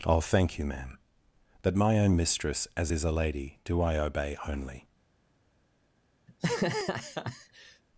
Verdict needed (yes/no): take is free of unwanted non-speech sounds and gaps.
no